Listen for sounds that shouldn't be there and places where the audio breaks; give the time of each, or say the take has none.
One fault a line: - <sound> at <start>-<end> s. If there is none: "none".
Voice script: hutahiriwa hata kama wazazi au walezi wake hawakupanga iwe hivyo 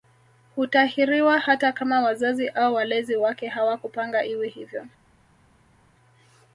none